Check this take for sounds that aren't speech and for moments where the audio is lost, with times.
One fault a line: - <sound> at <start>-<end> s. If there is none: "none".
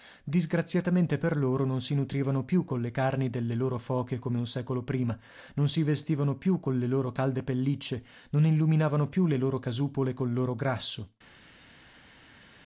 none